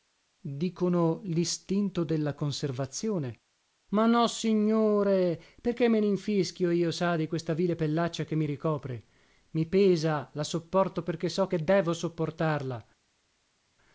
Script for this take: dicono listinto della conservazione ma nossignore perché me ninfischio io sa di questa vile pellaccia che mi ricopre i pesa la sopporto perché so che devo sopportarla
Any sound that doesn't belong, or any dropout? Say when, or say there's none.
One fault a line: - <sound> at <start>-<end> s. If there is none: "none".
none